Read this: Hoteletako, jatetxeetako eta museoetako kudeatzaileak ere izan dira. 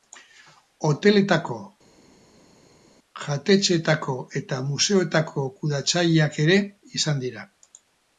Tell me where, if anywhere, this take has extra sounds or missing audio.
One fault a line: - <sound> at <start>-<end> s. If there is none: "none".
none